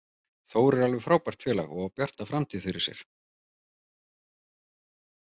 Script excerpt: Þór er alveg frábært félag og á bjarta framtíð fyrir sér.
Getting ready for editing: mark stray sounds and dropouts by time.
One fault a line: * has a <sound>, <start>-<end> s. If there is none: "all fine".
all fine